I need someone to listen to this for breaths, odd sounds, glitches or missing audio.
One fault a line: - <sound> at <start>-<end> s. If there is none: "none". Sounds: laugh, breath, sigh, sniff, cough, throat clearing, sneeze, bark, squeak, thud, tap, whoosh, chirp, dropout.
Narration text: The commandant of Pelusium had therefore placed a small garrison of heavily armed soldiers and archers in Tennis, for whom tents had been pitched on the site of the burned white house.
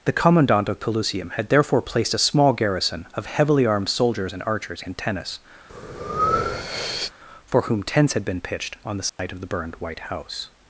- breath at 5.7-7.1 s
- dropout at 9.1-9.2 s